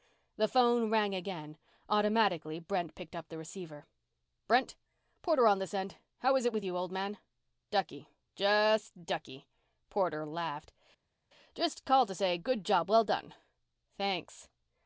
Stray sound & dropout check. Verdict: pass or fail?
pass